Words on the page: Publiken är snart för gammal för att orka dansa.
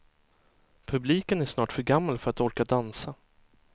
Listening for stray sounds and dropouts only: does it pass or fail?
pass